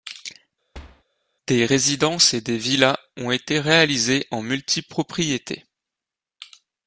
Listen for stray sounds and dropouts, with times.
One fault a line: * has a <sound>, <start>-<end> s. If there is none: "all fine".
* has a thud, 0.7-1.0 s